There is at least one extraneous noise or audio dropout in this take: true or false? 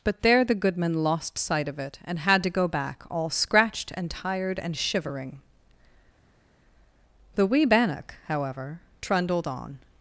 false